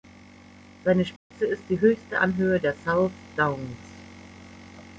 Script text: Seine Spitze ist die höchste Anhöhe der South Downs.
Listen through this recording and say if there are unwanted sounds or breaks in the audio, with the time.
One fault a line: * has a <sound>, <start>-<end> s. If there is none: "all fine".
* has a dropout, 1.2-1.3 s